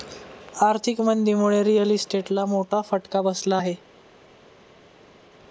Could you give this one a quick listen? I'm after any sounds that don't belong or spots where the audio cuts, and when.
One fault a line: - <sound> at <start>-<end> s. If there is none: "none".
none